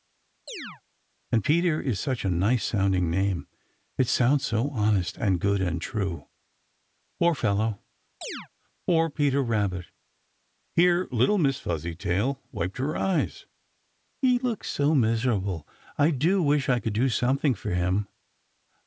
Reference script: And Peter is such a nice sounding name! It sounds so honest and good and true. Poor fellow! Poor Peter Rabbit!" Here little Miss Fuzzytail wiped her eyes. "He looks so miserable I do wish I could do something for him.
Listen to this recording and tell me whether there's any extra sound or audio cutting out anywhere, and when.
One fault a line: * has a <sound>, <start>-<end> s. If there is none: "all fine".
* has a chirp, 0.5-0.8 s
* has a chirp, 8.2-8.5 s